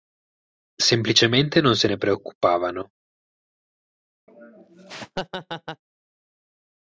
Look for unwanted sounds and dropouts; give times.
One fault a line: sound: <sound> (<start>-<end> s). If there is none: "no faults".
sound: laugh (4.3-5.8 s)